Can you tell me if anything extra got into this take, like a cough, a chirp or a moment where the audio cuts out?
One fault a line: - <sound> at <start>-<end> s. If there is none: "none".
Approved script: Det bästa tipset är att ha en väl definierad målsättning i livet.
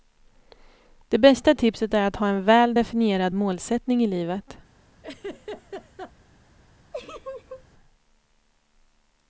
- laugh at 5.0-6.1 s
- laugh at 6.9-7.7 s